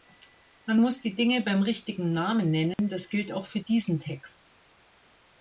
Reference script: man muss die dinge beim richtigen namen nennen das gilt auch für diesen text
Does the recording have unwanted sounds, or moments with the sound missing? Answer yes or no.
yes